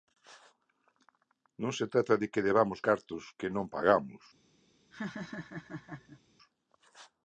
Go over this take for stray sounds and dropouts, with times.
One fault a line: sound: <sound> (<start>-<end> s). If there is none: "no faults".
sound: laugh (4.9-6.2 s)